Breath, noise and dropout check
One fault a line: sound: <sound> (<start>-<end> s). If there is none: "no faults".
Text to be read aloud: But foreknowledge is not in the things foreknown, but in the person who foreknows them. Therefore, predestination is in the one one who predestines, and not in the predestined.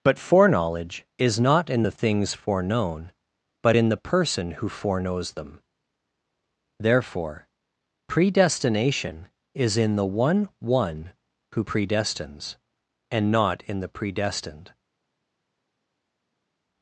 no faults